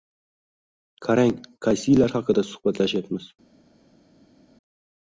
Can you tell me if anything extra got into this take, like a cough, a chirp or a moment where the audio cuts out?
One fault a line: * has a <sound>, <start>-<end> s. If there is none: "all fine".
all fine